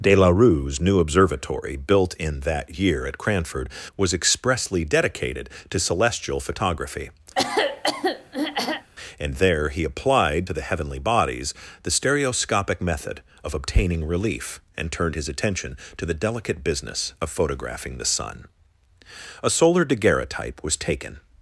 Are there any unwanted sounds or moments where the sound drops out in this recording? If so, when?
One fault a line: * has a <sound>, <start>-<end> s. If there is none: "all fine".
* has a throat clearing, 7.3-8.9 s